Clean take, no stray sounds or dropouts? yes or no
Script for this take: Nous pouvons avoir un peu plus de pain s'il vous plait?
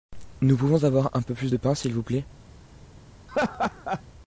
no